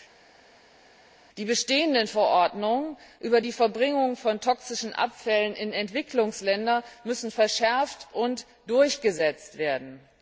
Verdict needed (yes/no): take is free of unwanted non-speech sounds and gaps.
yes